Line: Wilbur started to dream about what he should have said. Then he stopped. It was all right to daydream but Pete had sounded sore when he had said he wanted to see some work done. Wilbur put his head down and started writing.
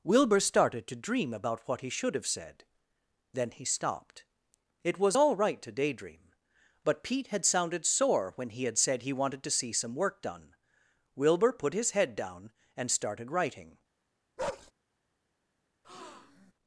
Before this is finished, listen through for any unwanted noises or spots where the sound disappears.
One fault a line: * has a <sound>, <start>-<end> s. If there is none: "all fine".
* has a bark, 14.4-14.7 s
* has a breath, 15.8-16.5 s